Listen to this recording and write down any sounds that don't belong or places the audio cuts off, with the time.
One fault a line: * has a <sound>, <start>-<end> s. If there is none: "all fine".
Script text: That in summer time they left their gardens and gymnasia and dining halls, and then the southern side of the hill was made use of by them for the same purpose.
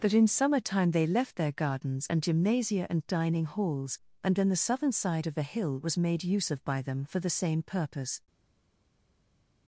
all fine